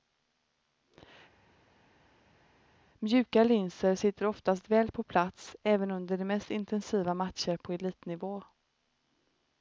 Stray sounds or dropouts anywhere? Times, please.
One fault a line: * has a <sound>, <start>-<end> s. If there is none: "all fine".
all fine